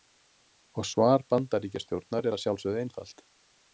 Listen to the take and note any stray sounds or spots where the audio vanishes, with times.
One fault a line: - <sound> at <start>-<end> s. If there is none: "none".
none